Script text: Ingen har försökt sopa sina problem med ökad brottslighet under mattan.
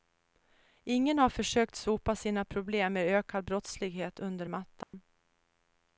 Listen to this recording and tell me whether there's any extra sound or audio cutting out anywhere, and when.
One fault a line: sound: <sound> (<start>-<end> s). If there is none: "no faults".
sound: dropout (4.8-4.9 s)